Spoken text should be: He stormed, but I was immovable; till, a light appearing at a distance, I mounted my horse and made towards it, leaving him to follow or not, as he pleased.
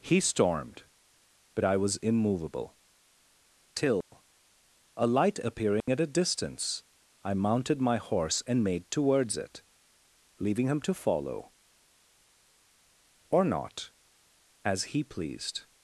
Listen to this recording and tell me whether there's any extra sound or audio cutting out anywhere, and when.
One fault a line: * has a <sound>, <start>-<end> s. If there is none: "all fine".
* has a dropout, 4.0-4.1 s
* has a dropout, 5.8-5.9 s